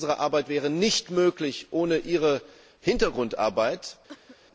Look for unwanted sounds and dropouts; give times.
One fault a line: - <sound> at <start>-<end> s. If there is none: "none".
- cough at 4.1-4.4 s